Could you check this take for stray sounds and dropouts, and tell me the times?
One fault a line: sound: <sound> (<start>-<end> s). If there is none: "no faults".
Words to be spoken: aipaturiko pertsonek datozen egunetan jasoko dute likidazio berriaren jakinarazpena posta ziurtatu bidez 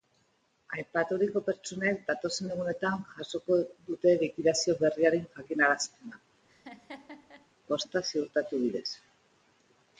sound: laugh (6.5-7.5 s)